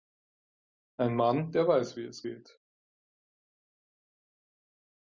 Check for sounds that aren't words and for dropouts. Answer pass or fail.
pass